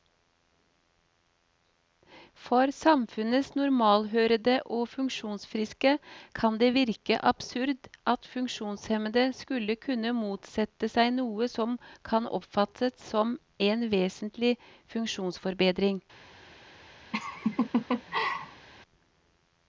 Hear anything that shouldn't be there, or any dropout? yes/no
yes